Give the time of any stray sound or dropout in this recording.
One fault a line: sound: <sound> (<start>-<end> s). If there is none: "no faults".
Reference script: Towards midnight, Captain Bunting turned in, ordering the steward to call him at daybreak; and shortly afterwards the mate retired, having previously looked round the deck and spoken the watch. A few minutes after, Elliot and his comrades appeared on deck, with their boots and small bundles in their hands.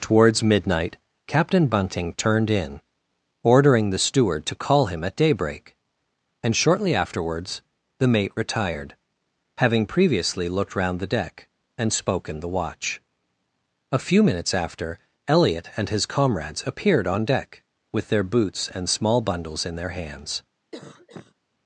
sound: cough (20.7-21.3 s)